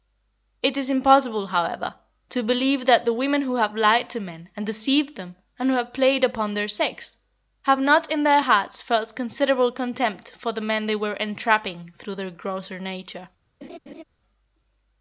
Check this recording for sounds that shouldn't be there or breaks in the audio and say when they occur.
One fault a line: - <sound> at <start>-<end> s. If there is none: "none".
- laugh at 13.6-14.0 s